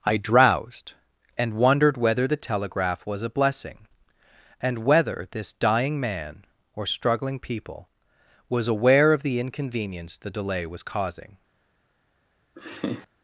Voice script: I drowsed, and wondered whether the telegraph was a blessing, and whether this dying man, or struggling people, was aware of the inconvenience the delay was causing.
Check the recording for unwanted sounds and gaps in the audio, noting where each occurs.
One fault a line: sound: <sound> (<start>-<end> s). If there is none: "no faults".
sound: laugh (12.6-13.1 s)